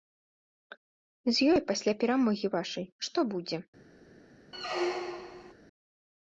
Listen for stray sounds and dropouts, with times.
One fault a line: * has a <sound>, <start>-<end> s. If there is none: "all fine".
* has a squeak, 4.5-5.5 s